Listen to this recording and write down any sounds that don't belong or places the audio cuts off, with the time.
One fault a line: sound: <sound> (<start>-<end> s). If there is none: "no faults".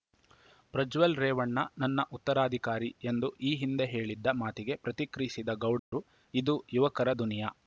sound: dropout (5.8-5.9 s)